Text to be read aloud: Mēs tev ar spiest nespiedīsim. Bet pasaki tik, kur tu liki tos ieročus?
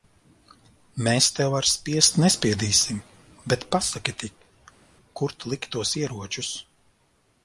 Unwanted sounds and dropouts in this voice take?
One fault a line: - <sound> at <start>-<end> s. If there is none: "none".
none